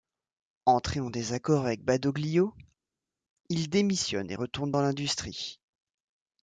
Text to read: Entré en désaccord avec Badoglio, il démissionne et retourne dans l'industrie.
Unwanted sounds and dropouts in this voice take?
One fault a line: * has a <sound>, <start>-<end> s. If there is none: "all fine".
all fine